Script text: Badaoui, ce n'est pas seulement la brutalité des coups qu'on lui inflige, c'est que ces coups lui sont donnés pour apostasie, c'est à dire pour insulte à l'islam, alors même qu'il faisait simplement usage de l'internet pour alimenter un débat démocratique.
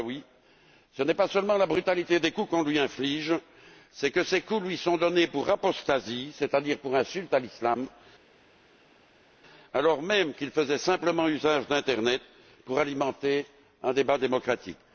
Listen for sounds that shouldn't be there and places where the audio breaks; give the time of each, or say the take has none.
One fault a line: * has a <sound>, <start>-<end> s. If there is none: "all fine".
all fine